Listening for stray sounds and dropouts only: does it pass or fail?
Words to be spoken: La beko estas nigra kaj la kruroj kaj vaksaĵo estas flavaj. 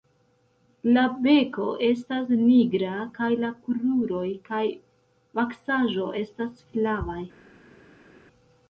pass